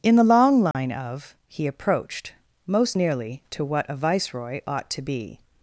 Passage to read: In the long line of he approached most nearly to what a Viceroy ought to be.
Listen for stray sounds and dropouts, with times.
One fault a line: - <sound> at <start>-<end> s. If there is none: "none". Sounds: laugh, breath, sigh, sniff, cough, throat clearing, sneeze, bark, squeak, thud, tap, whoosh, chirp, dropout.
- dropout at 0.7-0.7 s